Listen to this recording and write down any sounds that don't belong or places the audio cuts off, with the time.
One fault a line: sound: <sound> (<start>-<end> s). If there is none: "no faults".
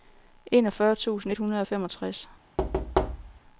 sound: thud (2.6-3.4 s)